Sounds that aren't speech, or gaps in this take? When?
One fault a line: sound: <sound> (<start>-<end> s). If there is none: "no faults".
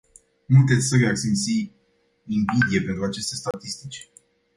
sound: dropout (3.5-3.5 s)